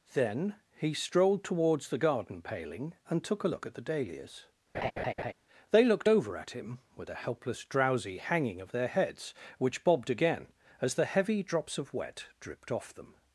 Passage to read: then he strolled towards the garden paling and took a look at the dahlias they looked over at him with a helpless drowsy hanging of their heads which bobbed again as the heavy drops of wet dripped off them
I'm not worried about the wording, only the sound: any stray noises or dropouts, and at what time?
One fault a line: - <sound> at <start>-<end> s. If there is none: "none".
- laugh at 4.7-5.3 s